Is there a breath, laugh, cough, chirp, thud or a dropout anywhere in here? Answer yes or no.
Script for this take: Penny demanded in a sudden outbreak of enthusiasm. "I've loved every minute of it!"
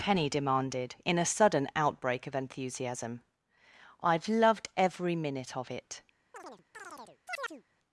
yes